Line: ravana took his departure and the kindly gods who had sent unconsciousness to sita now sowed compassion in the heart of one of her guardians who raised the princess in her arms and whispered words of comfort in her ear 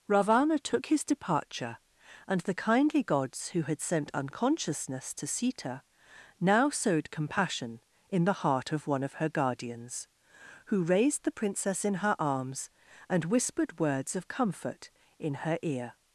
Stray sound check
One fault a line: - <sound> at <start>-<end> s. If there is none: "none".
none